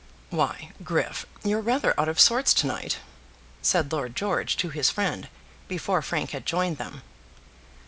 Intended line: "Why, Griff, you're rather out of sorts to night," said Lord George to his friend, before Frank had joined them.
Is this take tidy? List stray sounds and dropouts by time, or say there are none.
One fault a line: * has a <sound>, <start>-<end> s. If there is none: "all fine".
all fine